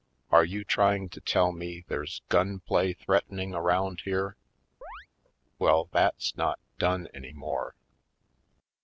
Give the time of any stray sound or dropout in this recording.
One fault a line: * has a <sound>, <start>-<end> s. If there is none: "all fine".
* has a chirp, 4.8-5.1 s